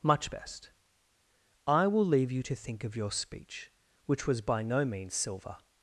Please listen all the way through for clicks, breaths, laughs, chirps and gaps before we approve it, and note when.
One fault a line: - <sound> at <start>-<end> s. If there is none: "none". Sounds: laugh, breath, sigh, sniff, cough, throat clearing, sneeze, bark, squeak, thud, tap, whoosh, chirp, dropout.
none